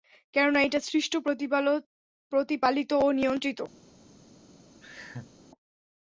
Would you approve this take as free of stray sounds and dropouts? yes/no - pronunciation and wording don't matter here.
no